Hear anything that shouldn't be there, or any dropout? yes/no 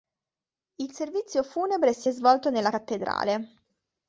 no